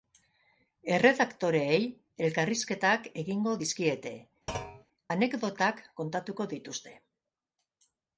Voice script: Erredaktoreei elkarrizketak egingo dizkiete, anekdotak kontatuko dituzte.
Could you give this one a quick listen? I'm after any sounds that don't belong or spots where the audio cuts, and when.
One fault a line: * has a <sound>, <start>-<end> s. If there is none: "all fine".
* has a thud, 4.5-4.8 s